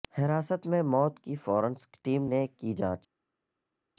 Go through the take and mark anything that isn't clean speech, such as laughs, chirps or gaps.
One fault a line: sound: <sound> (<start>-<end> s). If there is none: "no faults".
no faults